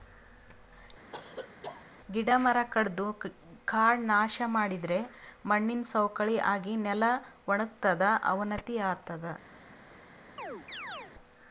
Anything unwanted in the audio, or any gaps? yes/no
yes